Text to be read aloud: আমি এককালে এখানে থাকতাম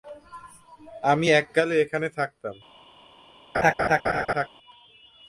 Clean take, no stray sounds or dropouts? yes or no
no